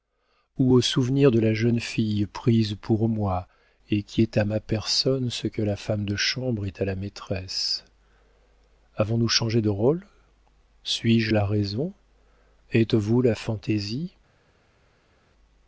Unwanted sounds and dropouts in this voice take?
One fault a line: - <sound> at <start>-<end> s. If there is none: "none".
none